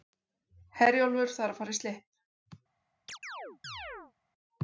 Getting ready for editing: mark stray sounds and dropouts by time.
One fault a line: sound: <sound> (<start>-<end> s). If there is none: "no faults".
sound: chirp (3.1-4.1 s)